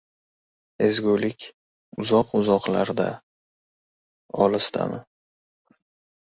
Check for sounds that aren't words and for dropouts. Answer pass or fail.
pass